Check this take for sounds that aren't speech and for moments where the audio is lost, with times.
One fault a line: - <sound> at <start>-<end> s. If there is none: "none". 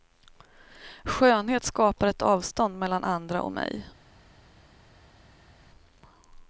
none